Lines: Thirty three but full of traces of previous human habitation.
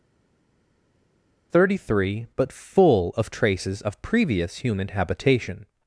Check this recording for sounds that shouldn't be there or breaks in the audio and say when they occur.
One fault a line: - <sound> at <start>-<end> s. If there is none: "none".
none